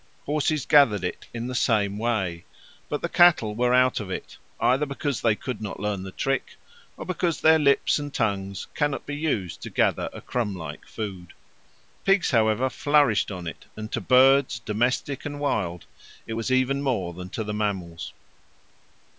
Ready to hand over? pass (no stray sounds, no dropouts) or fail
pass